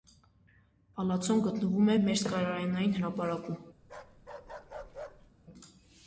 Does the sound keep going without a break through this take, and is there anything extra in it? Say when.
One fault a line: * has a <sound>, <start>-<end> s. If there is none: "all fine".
* has a bark, 3.8-5.3 s